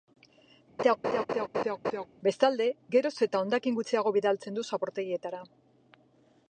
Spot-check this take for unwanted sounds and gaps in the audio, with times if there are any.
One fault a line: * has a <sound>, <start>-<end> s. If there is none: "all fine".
* has a laugh, 0.8-2.1 s